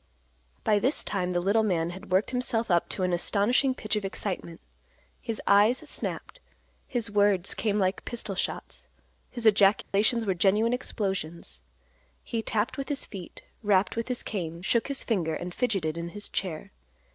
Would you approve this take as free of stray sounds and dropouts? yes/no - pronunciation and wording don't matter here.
no